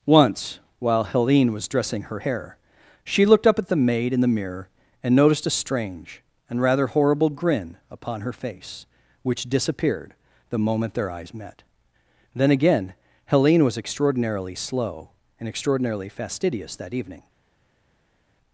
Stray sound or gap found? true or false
false